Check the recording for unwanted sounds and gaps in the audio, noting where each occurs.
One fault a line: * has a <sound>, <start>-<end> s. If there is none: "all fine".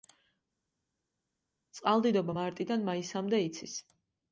all fine